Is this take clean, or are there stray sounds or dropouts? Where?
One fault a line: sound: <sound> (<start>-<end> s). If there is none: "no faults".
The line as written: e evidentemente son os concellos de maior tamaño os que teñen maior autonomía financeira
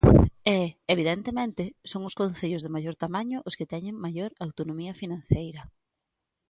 no faults